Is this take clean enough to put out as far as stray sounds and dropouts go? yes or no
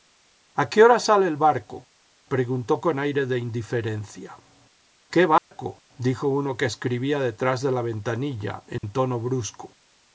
no